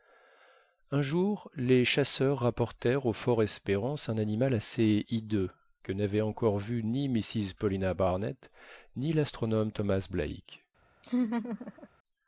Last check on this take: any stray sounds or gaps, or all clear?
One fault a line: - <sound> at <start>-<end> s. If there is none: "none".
- laugh at 11.0-11.9 s